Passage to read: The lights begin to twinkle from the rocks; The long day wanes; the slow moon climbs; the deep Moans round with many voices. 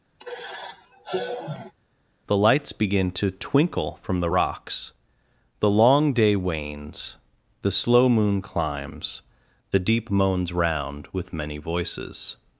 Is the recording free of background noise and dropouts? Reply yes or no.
no